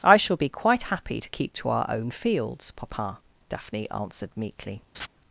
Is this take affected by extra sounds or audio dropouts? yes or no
yes